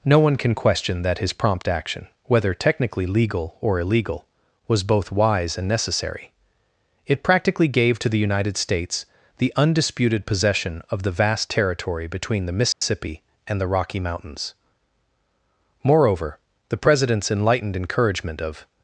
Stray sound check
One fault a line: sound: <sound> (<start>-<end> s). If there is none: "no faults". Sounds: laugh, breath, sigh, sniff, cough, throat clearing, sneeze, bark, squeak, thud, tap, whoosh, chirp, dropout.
sound: dropout (12.7-12.8 s)